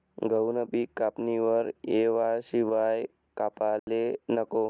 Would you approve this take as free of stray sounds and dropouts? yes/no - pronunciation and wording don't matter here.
no